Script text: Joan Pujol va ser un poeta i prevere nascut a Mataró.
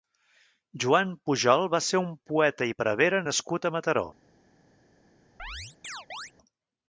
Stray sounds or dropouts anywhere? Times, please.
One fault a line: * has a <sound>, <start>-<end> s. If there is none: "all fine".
* has a chirp, 5.4-6.3 s